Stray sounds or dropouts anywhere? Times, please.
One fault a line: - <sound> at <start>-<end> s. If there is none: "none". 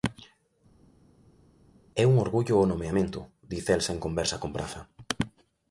none